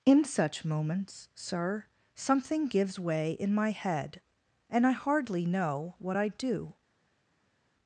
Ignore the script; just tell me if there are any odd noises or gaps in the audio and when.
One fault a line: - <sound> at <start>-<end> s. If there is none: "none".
none